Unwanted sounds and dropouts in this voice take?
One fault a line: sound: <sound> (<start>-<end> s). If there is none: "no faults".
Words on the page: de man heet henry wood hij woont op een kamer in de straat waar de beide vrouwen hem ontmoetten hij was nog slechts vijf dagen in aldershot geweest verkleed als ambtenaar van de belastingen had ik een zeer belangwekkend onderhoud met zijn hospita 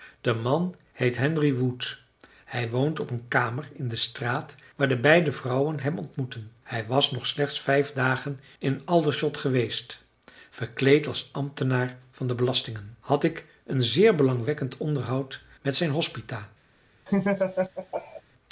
sound: laugh (17.1-18.2 s)